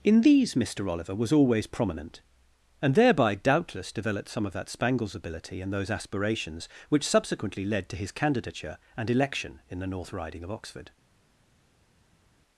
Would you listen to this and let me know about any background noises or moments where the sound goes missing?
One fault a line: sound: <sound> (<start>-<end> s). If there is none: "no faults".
no faults